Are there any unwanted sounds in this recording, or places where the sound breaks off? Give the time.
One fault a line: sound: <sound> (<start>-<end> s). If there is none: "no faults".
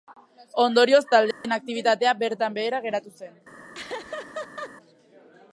sound: dropout (1.3-1.4 s)
sound: laugh (3.7-4.7 s)